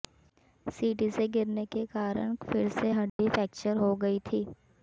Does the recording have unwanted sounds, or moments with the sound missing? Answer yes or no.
yes